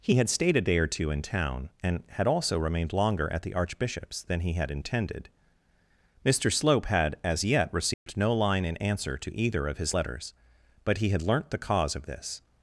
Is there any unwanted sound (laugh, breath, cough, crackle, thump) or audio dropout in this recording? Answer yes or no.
yes